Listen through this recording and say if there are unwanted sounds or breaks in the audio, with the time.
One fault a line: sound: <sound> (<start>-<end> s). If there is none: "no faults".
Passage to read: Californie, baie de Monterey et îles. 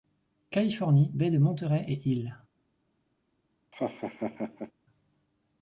sound: laugh (3.7-4.7 s)